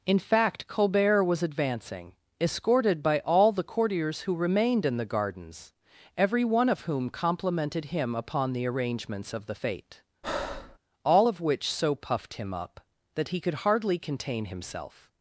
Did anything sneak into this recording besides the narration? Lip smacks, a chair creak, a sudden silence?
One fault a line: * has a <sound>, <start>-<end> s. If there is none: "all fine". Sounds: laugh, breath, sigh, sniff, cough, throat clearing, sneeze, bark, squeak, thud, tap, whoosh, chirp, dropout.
* has a breath, 10.2-10.8 s